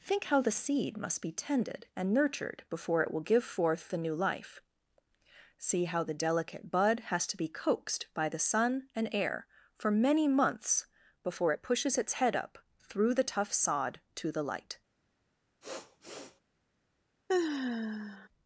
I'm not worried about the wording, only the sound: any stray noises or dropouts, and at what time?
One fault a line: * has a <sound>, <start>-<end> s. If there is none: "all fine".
* has a sniff, 15.6-16.4 s
* has a sigh, 17.3-18.3 s